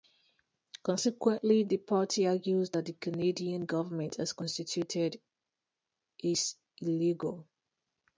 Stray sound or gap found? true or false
false